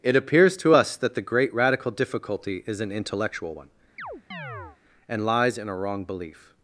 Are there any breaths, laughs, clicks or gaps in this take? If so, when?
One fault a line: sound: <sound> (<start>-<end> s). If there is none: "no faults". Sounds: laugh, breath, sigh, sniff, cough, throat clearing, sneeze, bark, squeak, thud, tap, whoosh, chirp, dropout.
sound: chirp (4.0-4.8 s)